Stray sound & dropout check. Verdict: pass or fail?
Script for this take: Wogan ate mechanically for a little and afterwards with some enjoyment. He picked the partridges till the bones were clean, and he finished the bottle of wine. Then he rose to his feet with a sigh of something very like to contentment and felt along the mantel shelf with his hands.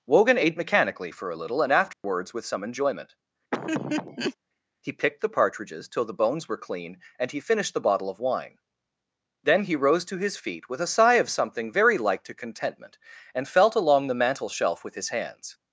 fail